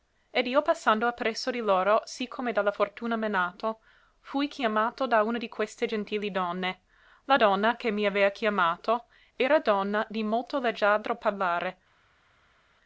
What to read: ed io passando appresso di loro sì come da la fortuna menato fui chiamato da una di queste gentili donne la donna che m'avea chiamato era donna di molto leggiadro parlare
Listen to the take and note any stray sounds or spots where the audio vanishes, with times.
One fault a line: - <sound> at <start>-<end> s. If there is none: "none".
none